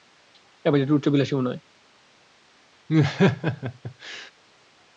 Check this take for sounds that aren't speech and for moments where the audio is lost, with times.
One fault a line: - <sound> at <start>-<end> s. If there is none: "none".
- laugh at 2.9-4.3 s